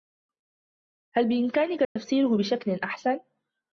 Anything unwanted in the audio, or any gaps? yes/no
yes